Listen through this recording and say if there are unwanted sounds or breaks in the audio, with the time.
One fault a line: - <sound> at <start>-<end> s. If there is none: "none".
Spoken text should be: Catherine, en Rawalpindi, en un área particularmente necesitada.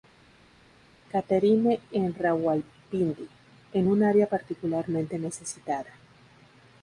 none